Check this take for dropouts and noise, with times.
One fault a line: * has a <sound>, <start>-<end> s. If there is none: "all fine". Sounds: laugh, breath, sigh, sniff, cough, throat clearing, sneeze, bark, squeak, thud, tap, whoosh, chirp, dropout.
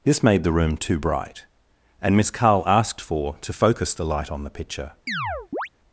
* has a chirp, 5.1-5.7 s